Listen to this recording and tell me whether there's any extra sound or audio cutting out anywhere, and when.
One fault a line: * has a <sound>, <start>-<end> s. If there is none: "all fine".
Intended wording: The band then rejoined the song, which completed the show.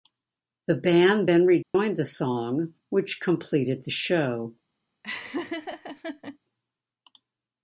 * has a dropout, 1.6-1.7 s
* has a laugh, 5.0-6.4 s